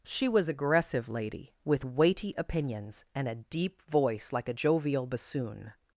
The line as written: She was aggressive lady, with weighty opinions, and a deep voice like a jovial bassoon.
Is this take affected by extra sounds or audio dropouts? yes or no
no